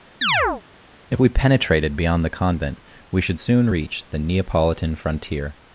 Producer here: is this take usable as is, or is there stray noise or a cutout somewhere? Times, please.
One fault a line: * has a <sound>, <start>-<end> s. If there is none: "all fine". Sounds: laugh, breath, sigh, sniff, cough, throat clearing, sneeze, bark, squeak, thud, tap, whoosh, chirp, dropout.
* has a chirp, 0.2-0.6 s